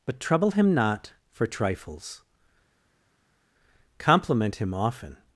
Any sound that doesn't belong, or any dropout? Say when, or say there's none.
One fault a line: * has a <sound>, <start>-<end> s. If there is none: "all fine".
all fine